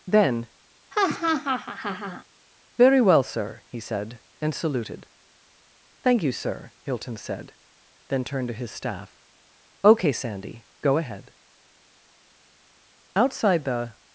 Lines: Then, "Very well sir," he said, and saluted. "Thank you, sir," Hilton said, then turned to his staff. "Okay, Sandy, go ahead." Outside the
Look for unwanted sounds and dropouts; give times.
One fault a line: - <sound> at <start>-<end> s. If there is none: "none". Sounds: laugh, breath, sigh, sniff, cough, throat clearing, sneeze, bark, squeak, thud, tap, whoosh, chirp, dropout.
- laugh at 0.9-2.2 s